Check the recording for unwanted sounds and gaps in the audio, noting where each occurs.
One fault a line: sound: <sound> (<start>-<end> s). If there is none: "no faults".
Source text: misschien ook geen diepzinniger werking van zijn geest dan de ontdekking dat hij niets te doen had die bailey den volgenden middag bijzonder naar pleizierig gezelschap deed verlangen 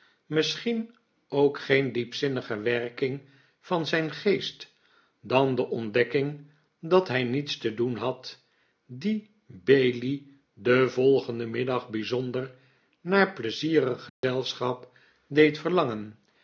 sound: dropout (14.1-14.2 s)